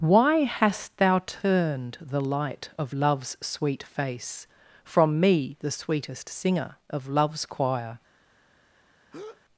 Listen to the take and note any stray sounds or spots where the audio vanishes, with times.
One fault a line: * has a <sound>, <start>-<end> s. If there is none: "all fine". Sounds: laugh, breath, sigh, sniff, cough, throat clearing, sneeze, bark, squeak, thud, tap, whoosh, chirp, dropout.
* has a breath, 9.1-9.4 s